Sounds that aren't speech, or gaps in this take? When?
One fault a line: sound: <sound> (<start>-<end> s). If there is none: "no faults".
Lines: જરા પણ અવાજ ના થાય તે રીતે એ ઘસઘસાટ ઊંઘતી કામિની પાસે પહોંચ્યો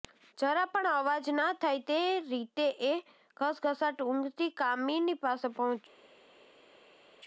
no faults